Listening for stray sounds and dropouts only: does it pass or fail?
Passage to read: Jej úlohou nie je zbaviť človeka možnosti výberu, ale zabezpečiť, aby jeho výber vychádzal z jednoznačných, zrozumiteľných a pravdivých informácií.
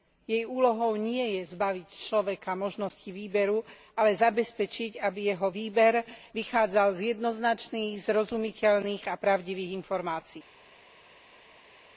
pass